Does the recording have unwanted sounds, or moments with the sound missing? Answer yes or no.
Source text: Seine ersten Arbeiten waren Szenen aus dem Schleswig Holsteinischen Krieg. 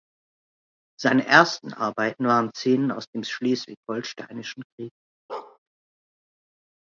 yes